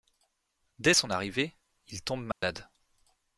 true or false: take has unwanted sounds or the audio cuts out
true